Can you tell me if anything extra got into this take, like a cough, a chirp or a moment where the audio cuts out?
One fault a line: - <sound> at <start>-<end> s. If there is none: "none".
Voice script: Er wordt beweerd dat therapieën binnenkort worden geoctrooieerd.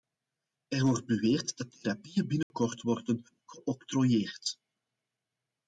- dropout at 2.4-2.5 s